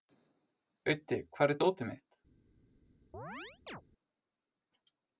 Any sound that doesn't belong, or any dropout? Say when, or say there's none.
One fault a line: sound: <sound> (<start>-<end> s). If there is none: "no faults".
sound: chirp (3.1-3.8 s)